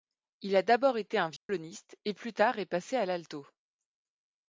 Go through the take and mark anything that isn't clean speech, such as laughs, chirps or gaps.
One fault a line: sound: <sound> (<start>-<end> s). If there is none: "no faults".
sound: dropout (1.4-1.5 s)